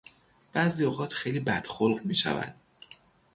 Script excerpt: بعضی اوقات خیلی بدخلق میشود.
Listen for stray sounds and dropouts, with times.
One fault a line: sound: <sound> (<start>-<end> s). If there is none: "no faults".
no faults